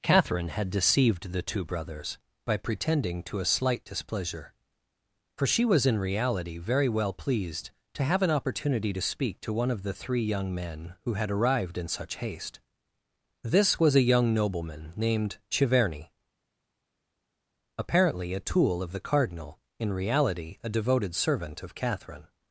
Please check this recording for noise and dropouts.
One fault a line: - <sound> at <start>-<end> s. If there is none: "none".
none